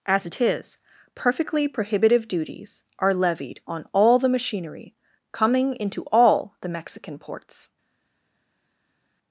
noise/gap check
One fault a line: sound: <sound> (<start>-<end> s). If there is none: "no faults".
no faults